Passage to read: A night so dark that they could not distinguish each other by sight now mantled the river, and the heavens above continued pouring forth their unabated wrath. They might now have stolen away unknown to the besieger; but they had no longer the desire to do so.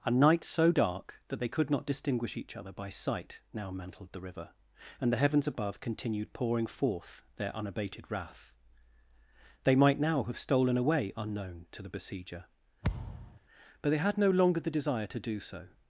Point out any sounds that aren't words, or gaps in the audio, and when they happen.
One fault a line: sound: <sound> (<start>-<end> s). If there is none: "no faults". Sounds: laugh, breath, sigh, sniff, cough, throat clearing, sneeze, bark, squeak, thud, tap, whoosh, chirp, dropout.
sound: thud (12.8-13.4 s)